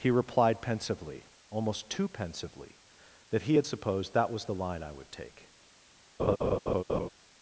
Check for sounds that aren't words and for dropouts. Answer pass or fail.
fail